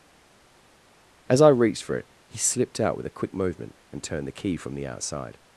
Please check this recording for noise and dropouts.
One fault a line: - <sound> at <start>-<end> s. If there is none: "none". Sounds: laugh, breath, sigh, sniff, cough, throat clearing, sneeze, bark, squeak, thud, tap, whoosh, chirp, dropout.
none